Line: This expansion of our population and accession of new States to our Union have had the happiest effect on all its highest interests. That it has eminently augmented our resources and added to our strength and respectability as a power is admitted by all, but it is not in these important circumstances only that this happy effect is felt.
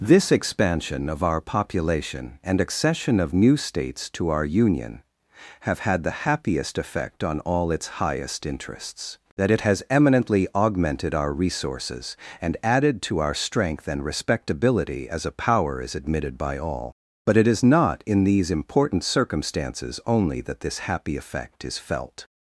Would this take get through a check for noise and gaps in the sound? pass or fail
pass